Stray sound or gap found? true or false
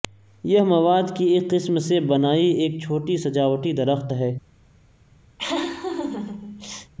true